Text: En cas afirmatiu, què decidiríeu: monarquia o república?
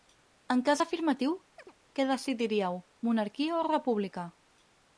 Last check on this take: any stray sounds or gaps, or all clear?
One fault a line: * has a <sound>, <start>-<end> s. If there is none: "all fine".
* has a chirp, 1.6-1.7 s